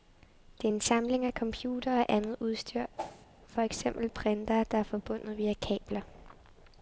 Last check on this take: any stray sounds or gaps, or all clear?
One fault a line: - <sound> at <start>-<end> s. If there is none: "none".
- whoosh at 3.0-3.3 s